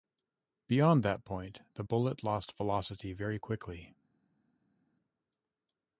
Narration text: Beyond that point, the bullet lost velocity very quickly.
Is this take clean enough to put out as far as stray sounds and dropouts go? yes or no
yes